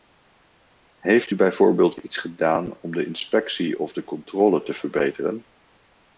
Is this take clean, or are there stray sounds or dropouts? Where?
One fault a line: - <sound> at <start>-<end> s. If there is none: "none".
none